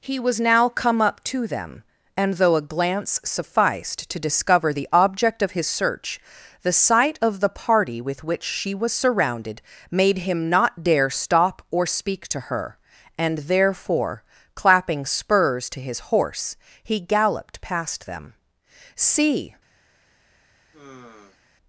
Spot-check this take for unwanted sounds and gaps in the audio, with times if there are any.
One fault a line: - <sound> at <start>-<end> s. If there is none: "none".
- sigh at 20.7-21.4 s